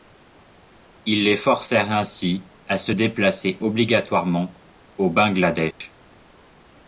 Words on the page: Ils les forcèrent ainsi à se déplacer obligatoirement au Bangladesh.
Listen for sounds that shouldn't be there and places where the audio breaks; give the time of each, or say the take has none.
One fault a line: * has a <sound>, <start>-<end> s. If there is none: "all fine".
* has a dropout, 5.7-5.8 s